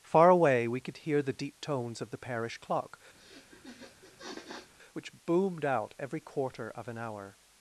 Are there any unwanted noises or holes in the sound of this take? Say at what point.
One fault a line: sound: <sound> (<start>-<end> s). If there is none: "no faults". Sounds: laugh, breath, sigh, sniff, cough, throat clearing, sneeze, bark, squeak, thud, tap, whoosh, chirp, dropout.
sound: sniff (3.2-4.7 s)